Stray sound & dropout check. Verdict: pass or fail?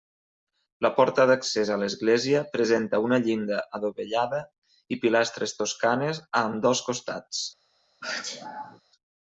fail